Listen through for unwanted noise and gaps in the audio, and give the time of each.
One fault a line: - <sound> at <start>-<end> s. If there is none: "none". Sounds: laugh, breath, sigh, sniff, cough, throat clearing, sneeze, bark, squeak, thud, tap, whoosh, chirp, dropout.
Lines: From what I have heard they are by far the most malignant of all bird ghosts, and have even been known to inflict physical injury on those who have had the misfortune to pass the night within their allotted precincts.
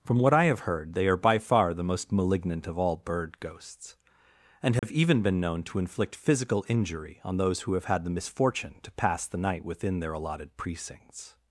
- dropout at 4.8-4.8 s